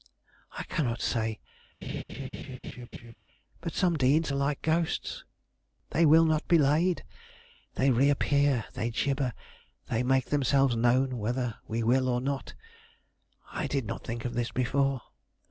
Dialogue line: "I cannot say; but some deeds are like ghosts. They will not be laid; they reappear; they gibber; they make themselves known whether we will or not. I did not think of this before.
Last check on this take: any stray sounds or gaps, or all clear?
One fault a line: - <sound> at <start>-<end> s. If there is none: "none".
- laugh at 1.8-3.2 s